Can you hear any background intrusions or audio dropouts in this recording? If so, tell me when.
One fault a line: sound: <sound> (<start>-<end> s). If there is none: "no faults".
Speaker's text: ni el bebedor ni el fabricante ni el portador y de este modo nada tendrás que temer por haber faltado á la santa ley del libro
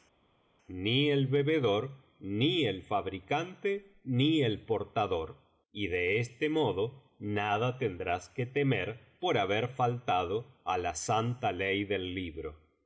no faults